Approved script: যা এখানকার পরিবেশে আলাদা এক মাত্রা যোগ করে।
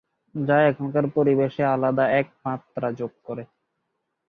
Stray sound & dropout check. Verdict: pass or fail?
pass